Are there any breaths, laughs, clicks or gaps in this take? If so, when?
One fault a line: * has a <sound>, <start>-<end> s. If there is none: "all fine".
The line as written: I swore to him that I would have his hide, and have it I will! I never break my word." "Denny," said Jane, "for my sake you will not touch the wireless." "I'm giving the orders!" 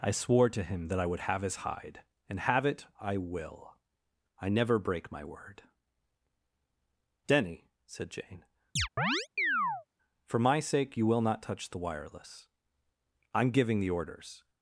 * has a chirp, 8.8-9.9 s